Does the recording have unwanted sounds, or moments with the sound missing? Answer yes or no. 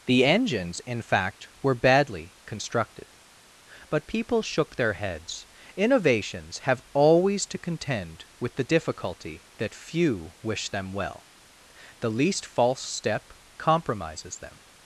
no